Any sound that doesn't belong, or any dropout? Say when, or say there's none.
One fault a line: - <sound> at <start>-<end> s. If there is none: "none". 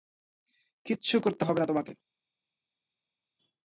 none